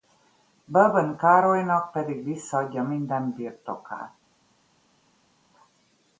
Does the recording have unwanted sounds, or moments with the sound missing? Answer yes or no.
no